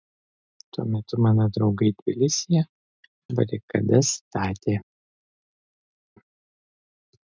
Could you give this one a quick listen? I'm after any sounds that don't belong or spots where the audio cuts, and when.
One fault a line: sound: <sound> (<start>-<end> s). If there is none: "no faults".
no faults